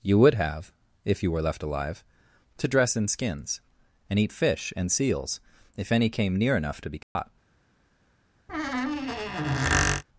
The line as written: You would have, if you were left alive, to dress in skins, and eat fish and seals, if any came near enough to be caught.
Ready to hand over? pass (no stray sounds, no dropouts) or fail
fail